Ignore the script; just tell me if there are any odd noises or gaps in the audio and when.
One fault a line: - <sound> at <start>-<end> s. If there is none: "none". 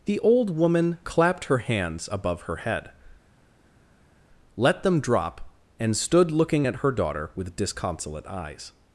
none